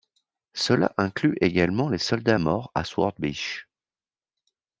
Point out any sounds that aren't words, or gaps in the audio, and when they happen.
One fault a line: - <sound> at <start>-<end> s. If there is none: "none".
none